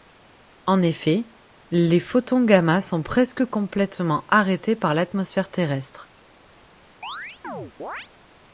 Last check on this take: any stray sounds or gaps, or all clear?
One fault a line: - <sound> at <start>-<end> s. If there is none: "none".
- chirp at 7.0-8.1 s